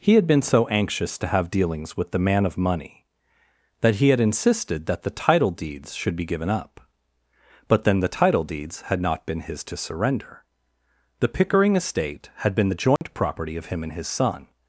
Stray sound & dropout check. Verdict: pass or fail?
fail